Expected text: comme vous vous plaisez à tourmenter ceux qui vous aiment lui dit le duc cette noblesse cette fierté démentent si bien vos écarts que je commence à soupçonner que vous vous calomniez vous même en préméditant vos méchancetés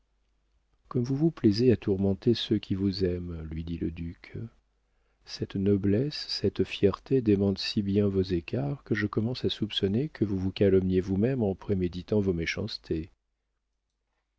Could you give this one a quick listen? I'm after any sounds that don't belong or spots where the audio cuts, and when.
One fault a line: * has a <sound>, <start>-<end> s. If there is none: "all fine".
all fine